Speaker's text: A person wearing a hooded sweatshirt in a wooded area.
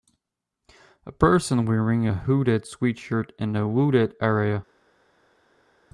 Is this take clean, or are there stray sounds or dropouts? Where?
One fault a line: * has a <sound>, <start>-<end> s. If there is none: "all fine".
all fine